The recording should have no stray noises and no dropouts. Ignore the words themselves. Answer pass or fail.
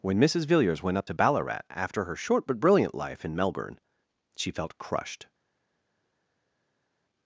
pass